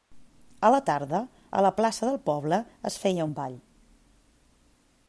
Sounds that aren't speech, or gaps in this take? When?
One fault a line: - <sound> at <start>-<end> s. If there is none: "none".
none